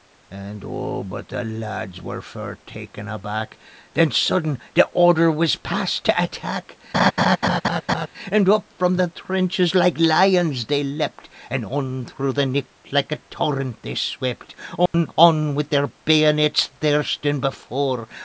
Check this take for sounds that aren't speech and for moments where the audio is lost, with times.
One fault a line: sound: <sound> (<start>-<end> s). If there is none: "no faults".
sound: laugh (6.9-8.1 s)
sound: dropout (14.9-14.9 s)